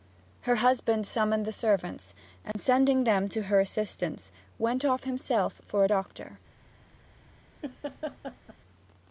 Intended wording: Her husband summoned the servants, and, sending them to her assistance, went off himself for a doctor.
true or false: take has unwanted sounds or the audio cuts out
true